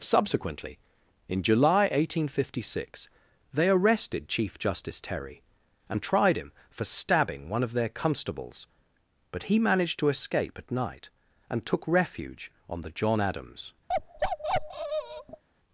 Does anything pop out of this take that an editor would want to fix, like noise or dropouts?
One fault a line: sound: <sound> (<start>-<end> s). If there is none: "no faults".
sound: bark (13.9-15.4 s)